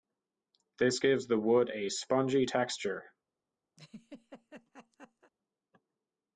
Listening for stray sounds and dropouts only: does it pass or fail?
fail